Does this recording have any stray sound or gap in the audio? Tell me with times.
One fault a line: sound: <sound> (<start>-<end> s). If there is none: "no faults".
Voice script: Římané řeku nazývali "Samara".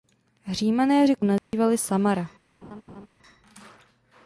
sound: dropout (1.4-1.5 s)
sound: laugh (2.6-3.1 s)